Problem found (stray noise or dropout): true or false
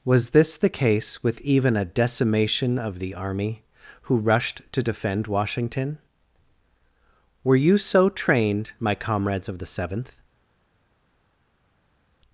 false